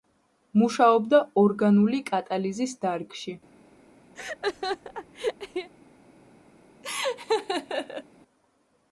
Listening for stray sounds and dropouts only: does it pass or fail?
fail